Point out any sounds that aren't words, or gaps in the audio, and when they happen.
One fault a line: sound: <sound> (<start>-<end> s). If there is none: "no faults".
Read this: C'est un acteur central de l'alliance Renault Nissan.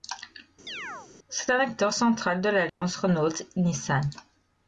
sound: chirp (0.7-1.1 s)
sound: dropout (2.7-2.8 s)